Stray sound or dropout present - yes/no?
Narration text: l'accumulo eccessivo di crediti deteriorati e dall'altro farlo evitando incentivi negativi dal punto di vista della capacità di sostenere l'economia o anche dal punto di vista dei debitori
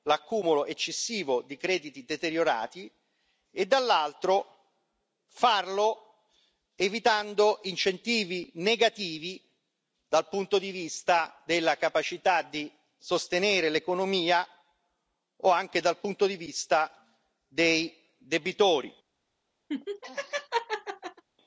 yes